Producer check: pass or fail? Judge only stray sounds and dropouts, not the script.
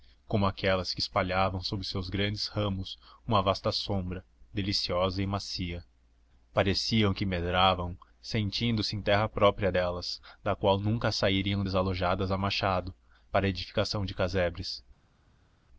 pass